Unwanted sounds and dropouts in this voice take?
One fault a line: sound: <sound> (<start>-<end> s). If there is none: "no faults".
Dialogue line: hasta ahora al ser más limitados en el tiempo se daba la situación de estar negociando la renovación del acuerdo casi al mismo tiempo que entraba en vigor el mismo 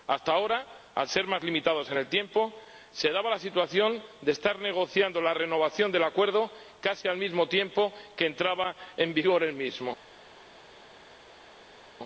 no faults